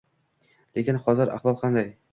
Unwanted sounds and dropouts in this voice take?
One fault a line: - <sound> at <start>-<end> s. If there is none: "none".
none